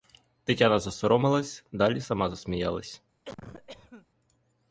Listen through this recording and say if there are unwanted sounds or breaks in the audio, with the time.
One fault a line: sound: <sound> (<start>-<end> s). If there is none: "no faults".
sound: cough (3.2-4.1 s)